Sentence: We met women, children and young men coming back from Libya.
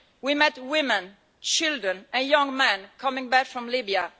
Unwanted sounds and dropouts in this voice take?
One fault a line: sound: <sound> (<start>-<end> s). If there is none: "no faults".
no faults